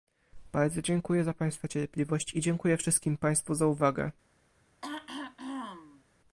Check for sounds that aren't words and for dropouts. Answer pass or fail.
fail